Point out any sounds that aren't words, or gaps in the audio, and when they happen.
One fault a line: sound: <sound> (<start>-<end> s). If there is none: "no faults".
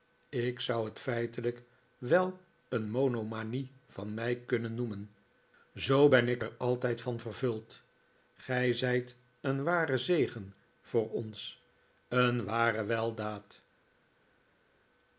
no faults